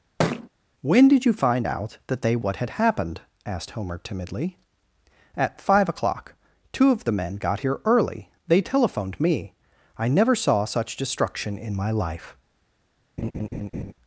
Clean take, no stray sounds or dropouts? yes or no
no